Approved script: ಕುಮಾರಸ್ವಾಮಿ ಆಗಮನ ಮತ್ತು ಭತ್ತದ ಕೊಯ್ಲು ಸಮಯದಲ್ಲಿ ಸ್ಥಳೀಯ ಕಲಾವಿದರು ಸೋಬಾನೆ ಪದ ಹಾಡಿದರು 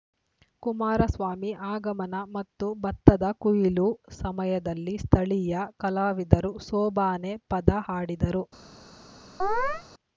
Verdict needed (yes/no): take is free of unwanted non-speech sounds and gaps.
no